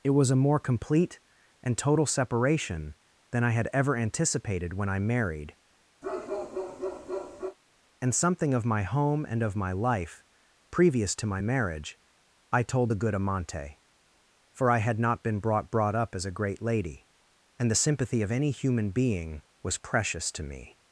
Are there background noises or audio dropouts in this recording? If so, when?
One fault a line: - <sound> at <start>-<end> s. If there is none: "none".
- bark at 6.0-7.6 s